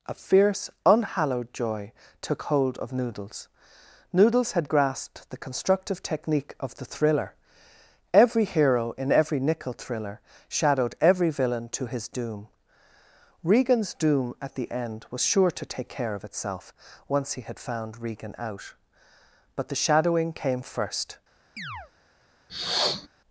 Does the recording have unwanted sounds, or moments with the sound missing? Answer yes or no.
yes